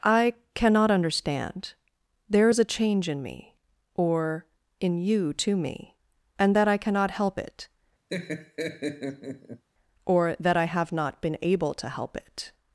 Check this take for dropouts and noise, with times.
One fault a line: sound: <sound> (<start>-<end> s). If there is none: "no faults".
sound: laugh (8.1-9.6 s)